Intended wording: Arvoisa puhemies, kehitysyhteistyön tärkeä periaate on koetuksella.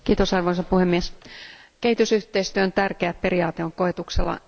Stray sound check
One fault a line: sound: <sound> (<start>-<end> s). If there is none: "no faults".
no faults